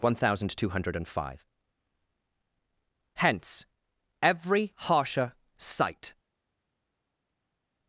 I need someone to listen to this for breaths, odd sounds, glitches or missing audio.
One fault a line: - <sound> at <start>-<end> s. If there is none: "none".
none